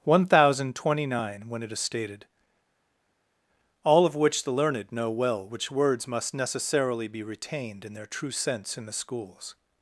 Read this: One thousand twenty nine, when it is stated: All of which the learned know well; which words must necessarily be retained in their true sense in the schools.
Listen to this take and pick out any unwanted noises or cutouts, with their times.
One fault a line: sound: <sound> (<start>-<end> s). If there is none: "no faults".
no faults